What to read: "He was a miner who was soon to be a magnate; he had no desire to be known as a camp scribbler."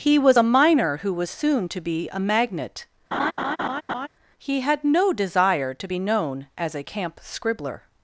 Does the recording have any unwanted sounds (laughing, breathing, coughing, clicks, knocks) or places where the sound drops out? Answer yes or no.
yes